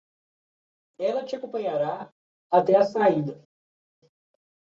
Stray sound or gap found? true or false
false